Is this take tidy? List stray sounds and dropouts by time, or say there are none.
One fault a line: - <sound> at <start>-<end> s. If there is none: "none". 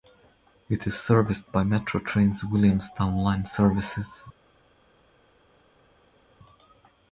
none